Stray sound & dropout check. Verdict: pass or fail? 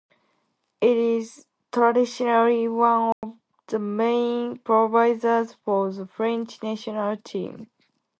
fail